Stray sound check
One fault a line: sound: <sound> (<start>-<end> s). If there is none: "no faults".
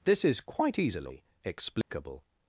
sound: dropout (1.8-1.9 s)